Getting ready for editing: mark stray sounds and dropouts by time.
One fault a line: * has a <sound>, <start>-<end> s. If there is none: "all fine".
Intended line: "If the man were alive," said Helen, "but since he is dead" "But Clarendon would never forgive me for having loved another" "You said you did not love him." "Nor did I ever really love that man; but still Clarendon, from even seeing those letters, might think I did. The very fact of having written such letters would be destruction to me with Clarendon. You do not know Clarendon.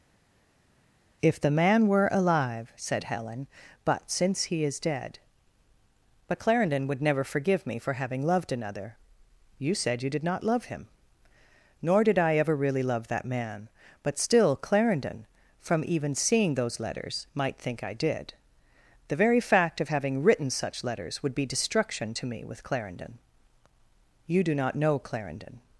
all fine